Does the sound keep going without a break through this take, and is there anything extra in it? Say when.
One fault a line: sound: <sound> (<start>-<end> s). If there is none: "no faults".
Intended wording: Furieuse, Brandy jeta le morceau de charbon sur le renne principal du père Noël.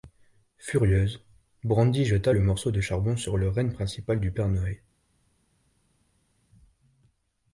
no faults